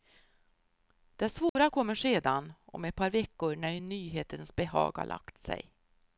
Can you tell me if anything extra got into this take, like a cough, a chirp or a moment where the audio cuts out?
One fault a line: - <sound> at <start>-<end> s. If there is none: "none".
- dropout at 1.5-1.6 s